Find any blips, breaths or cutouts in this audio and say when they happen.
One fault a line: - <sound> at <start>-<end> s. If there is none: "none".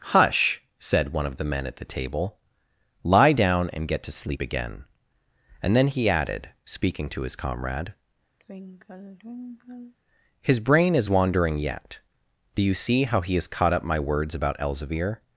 - sigh at 8.4-9.9 s